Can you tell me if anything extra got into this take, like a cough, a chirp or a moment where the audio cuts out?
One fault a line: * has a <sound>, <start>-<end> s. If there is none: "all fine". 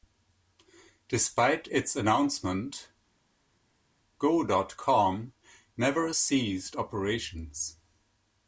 all fine